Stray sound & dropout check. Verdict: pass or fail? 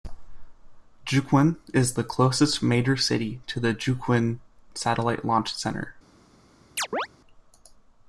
fail